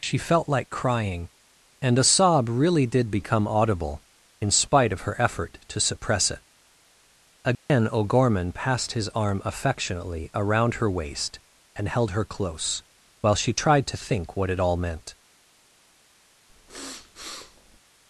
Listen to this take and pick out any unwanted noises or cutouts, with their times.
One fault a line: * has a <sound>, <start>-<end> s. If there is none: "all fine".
* has a dropout, 7.5-7.7 s
* has a sniff, 16.5-17.8 s